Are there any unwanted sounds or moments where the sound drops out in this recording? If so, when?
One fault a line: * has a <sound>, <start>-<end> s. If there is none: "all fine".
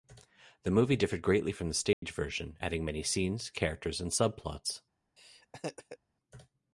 * has a dropout, 1.9-2.0 s
* has a laugh, 5.2-6.0 s